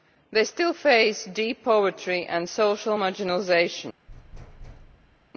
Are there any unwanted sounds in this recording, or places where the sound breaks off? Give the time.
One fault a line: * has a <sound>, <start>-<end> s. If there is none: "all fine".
* has a thud, 4.1-5.3 s